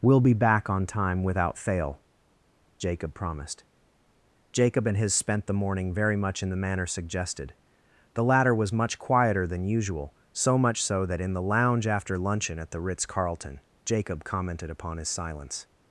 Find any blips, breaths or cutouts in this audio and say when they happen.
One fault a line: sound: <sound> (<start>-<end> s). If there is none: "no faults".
no faults